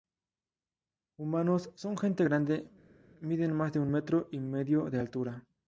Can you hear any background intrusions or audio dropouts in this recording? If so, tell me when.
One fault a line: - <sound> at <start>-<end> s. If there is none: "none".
none